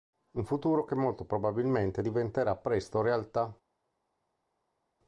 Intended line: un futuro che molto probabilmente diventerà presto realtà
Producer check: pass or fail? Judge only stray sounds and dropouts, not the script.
pass